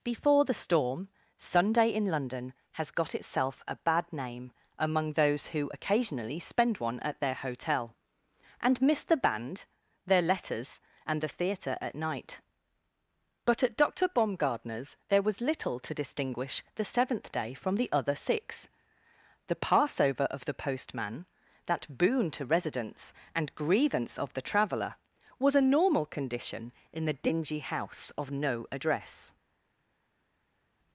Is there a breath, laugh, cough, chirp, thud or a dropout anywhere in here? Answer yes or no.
no